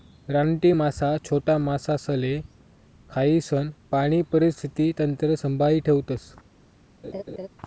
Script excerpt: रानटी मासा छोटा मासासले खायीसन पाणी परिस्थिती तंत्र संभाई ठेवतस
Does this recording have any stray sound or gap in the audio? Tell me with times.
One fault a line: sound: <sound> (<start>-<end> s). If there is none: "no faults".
sound: laugh (7.0-7.5 s)